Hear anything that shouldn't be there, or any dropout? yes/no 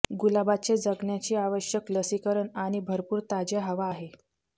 no